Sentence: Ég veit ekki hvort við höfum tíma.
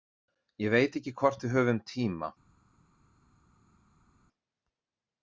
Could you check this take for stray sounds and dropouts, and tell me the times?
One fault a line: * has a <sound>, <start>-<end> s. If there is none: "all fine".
all fine